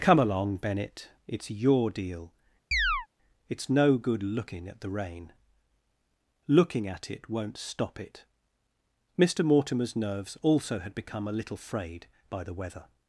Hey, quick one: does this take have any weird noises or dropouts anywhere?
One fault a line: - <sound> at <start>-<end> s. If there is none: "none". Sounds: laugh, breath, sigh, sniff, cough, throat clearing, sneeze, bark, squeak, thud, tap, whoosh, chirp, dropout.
- chirp at 2.7-3.1 s